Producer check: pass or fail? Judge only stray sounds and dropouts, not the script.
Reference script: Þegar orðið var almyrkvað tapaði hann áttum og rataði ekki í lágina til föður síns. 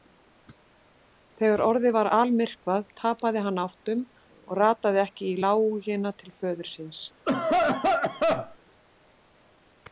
fail